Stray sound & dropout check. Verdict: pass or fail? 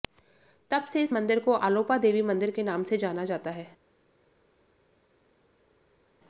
pass